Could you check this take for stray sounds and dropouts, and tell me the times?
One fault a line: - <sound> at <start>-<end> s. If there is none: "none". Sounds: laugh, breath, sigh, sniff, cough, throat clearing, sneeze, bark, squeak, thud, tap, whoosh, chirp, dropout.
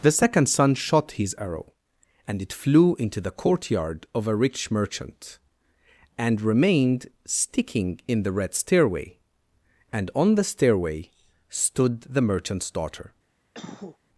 - cough at 13.5-14.0 s